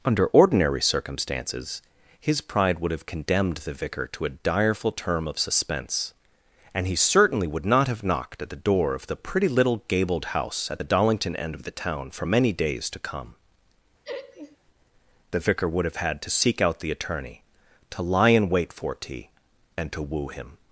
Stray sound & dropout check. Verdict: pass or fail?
fail